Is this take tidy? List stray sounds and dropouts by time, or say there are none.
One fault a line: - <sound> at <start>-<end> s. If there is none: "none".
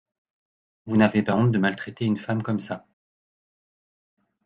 none